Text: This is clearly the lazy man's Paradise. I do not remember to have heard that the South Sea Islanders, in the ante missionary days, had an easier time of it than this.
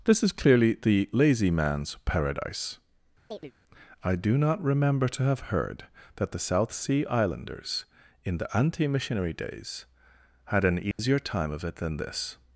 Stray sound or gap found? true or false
true